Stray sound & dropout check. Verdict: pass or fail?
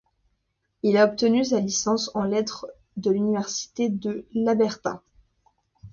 pass